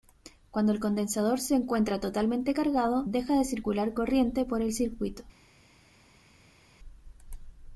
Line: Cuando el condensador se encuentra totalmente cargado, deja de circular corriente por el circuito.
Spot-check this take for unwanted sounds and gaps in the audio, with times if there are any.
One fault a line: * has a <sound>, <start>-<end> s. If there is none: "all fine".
all fine